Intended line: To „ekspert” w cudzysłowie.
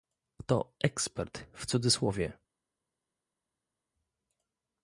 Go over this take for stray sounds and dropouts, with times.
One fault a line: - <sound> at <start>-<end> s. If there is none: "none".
none